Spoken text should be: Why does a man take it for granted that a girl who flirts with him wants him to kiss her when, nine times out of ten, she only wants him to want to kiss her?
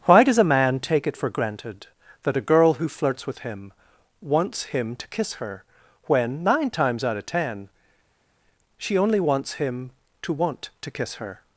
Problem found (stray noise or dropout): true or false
false